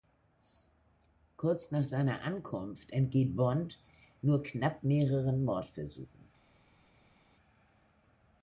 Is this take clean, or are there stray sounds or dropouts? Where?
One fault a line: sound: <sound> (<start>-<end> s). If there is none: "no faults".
no faults